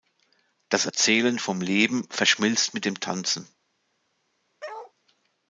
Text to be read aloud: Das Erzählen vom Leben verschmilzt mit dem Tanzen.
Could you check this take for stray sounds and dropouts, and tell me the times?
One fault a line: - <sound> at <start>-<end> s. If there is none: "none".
- bark at 4.6-4.9 s